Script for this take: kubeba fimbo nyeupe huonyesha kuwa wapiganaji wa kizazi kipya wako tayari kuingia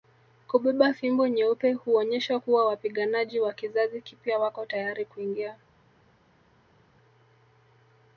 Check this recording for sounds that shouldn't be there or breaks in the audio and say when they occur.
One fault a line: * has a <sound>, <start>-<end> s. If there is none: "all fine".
all fine